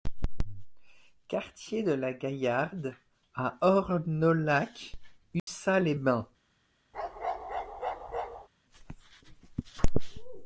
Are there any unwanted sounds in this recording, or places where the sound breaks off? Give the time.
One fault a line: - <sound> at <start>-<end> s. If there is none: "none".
- dropout at 5.4-5.5 s
- bark at 6.9-8.5 s